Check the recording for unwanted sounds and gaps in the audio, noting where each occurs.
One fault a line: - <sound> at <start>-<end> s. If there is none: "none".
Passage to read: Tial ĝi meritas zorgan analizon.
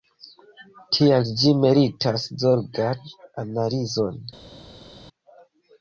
none